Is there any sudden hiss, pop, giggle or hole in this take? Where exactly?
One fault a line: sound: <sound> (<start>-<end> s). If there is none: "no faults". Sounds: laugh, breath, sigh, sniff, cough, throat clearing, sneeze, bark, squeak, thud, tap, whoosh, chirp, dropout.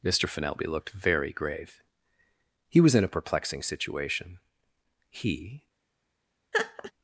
sound: laugh (6.5-6.9 s)